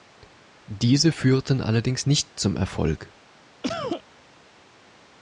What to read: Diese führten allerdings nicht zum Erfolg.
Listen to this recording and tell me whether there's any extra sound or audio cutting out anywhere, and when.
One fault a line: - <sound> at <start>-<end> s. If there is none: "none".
- cough at 3.6-4.0 s